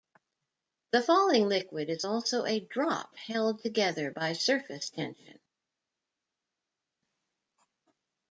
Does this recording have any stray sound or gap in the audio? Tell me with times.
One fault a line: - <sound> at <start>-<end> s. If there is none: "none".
none